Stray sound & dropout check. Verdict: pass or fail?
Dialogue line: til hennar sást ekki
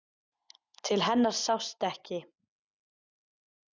pass